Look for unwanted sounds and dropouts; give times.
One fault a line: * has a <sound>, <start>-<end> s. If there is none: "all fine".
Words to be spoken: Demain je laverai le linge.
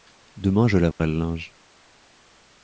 * has a dropout, 0.9-1.0 s